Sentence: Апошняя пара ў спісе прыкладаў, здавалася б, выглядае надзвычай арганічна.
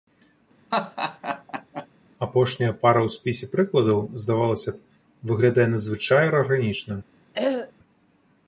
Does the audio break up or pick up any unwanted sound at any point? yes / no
yes